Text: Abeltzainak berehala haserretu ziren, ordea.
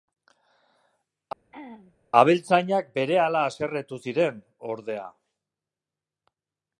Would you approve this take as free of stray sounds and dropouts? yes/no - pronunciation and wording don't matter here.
no